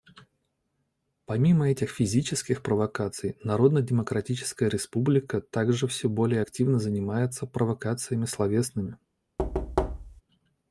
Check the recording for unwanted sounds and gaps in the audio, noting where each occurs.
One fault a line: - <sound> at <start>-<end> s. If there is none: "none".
- thud at 9.4-10.2 s